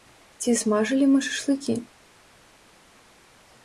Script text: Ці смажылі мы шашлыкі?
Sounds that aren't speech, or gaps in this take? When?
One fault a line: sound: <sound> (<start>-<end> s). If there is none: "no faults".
no faults